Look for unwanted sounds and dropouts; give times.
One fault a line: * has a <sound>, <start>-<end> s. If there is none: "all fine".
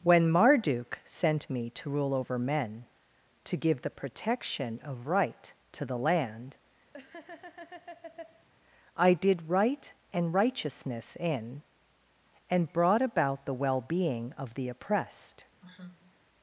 * has a laugh, 6.9-8.5 s
* has a sigh, 15.6-16.2 s